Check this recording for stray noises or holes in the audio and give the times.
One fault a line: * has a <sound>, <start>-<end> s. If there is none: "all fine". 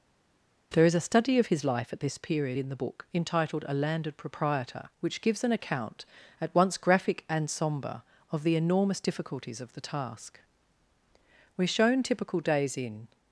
all fine